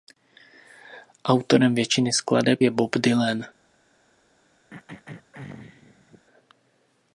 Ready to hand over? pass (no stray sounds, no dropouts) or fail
fail